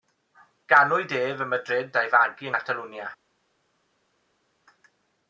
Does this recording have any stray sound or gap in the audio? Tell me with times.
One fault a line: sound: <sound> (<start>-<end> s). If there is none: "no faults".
no faults